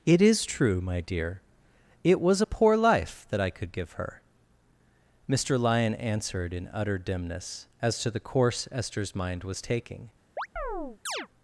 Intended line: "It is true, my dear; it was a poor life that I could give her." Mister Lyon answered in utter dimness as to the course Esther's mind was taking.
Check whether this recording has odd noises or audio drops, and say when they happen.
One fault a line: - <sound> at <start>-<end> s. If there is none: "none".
- chirp at 10.4-11.3 s